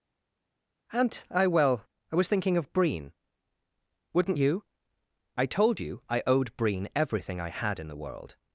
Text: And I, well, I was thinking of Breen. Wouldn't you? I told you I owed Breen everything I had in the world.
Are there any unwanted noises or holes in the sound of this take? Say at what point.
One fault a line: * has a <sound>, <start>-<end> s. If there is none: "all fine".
all fine